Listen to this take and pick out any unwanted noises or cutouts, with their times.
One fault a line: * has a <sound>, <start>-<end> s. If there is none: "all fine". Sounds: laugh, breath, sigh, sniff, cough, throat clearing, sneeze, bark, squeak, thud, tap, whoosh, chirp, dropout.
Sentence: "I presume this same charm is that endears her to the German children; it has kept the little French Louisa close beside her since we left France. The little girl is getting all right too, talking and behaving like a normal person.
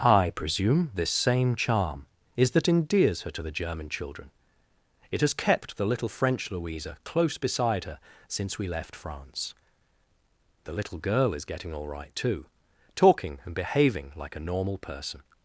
all fine